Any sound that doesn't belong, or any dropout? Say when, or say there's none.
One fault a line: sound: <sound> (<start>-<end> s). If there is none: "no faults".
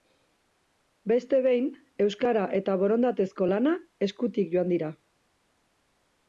no faults